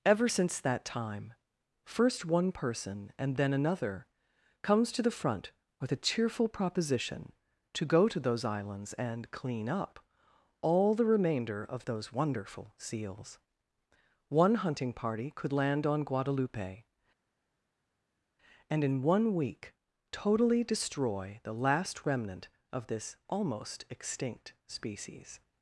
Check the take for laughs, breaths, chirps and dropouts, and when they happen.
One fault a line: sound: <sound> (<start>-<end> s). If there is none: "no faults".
no faults